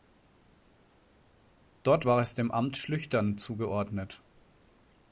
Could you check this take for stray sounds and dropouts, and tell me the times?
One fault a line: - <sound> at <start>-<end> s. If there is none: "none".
none